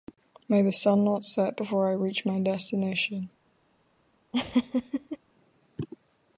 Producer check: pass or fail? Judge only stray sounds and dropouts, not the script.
fail